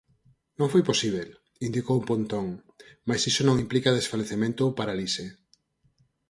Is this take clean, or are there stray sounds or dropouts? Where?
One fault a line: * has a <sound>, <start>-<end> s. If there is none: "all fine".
all fine